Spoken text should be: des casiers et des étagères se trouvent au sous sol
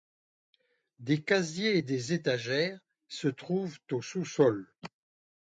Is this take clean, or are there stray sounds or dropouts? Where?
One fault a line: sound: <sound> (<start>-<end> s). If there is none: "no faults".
no faults